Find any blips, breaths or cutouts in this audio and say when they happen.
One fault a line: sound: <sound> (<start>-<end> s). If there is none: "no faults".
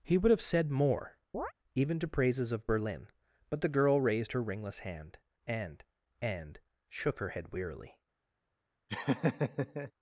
sound: chirp (1.3-1.5 s)
sound: laugh (8.9-9.9 s)